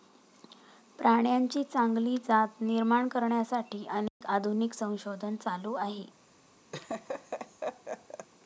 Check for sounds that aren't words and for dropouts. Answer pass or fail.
fail